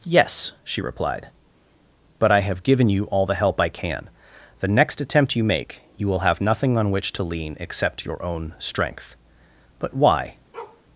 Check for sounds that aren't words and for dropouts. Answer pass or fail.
fail